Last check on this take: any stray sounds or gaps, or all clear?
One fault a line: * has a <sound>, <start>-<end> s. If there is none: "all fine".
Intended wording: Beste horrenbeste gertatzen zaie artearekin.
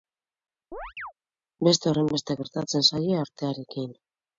* has a chirp, 0.7-1.1 s